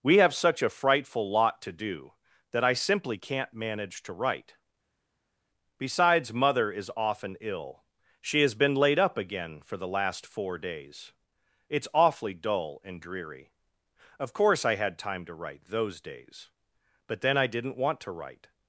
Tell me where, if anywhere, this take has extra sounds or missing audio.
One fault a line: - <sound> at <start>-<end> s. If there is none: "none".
none